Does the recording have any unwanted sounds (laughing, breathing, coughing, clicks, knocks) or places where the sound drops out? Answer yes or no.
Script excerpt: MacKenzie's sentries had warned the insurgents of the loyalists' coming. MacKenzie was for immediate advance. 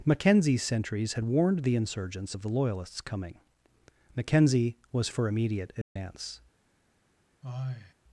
yes